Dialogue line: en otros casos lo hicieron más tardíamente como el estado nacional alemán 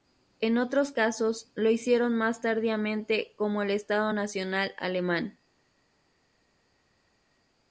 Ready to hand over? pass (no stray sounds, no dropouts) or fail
pass